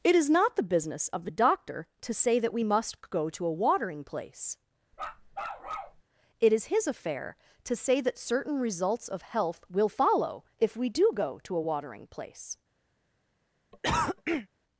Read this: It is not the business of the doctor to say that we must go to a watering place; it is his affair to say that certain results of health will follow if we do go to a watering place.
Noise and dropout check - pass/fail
fail